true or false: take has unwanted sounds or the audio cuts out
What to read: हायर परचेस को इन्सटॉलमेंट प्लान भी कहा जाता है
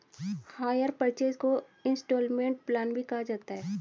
false